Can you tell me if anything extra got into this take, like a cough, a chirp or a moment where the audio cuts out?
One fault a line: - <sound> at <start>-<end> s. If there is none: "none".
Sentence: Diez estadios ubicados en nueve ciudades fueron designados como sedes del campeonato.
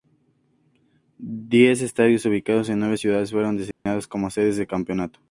- dropout at 3.7-3.9 s